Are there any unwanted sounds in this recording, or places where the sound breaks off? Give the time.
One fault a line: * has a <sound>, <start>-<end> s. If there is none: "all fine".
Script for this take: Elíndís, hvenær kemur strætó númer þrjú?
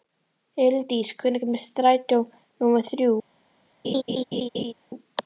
* has a laugh, 3.8-4.7 s